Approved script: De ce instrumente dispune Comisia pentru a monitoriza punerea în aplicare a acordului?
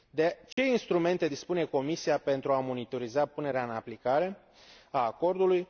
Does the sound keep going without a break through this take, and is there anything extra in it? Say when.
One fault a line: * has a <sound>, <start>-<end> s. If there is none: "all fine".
* has a dropout, 0.5-0.6 s